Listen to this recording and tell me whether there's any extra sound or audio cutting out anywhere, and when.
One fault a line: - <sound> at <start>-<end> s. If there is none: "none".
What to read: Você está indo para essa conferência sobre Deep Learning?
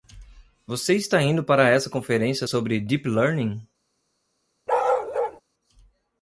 - bark at 4.7-5.4 s